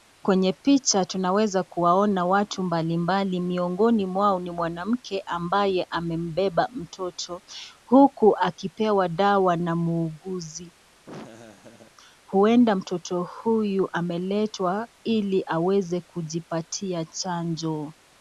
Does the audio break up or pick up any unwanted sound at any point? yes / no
yes